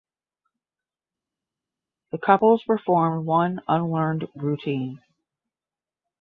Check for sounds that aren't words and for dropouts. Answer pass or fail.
pass